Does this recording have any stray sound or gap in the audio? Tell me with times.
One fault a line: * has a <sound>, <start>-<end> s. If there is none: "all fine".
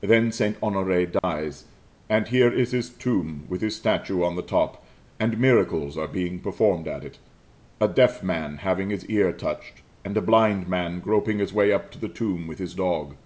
* has a dropout, 1.2-1.2 s